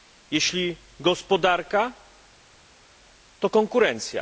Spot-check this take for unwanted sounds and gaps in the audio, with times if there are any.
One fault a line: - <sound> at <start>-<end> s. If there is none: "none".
none